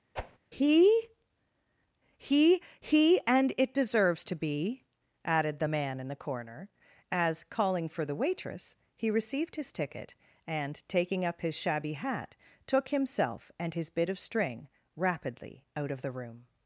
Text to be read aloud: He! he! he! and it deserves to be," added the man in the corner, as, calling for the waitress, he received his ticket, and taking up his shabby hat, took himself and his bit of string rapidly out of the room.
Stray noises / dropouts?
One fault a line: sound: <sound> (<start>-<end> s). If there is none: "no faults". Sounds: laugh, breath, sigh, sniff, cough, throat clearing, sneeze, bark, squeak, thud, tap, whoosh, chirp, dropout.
sound: whoosh (0.2-0.4 s)